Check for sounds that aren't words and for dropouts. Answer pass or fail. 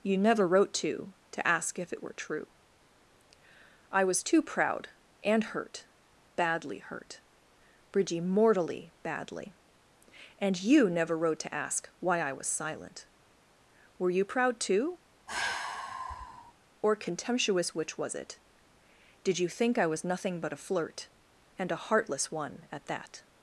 fail